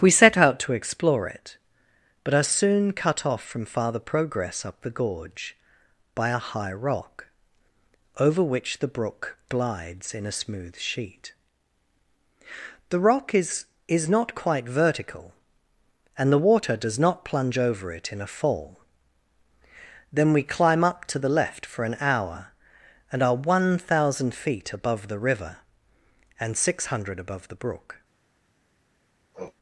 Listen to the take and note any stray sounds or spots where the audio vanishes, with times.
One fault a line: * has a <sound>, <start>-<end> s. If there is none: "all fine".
* has a sniff, 29.3-29.5 s